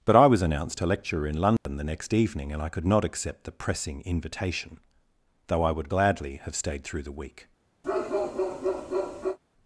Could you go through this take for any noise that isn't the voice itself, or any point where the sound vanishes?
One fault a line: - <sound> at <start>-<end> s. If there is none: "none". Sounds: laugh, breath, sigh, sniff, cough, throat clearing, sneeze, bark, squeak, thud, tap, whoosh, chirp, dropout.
- dropout at 1.6-1.7 s
- bark at 7.8-9.4 s